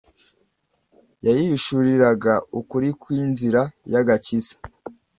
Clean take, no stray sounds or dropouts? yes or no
yes